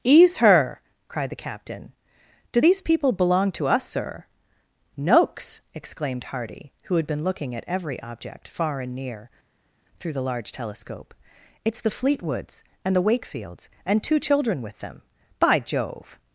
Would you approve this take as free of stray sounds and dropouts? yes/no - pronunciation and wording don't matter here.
yes